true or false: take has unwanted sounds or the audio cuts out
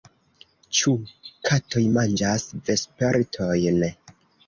false